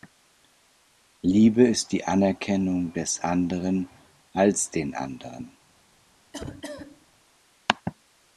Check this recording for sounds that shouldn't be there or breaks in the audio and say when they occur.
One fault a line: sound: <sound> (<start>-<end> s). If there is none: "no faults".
sound: cough (6.3-7.1 s)